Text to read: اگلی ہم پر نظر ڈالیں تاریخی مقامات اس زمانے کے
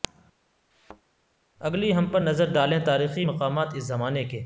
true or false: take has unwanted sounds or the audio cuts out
true